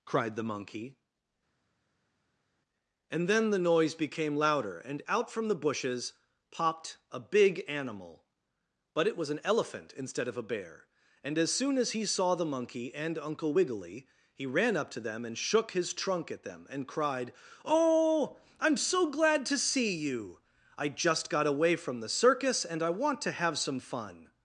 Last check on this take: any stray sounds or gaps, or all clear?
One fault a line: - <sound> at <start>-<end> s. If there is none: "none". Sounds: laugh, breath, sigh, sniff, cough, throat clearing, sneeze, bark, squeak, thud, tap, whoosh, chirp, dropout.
none